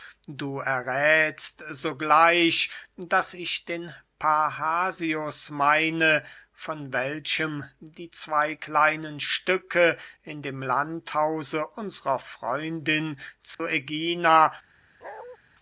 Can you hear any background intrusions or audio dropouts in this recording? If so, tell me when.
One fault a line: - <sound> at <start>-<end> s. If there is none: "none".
- dropout at 13.5-13.6 s
- bark at 15.0-15.4 s